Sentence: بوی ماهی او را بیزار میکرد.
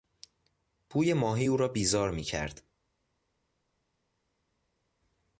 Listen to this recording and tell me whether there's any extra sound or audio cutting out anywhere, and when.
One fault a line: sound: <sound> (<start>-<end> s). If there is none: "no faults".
no faults